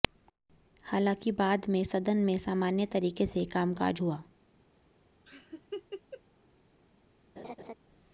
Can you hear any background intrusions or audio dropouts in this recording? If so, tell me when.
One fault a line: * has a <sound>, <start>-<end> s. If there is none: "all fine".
* has a laugh, 5.3-6.2 s
* has a laugh, 7.4-7.7 s